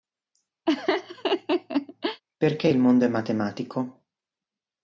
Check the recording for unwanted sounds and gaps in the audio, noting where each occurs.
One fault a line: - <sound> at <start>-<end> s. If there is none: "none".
- laugh at 0.7-2.2 s